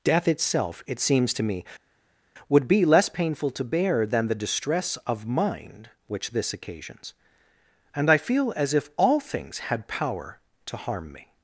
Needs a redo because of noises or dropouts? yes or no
no